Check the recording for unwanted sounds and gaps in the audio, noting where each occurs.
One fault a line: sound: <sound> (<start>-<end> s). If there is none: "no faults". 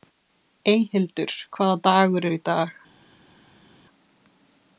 no faults